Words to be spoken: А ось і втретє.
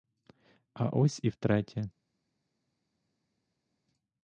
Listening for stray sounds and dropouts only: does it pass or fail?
pass